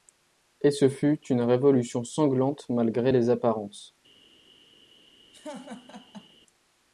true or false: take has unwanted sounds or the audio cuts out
true